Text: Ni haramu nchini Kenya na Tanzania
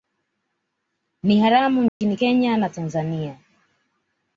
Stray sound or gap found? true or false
true